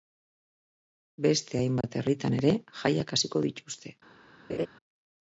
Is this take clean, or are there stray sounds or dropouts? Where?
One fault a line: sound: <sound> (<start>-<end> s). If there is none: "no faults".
sound: dropout (1.8-1.8 s)
sound: laugh (4.5-4.7 s)